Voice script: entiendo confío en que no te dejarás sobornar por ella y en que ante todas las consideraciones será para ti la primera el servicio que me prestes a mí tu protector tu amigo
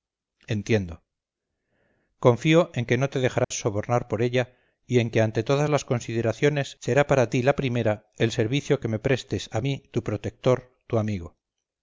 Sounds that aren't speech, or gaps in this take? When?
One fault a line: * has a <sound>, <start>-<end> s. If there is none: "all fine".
* has a dropout, 3.4-3.5 s